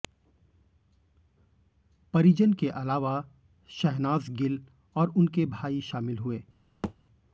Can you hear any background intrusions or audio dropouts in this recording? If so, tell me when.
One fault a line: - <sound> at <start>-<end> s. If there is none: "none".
- thud at 6.8-7.0 s